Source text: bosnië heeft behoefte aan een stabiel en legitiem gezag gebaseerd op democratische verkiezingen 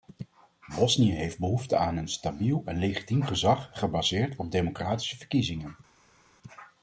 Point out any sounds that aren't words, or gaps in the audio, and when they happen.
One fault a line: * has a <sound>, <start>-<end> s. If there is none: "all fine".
all fine